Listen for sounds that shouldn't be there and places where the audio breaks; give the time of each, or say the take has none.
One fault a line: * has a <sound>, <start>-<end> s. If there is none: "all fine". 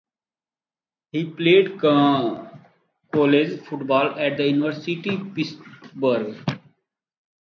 all fine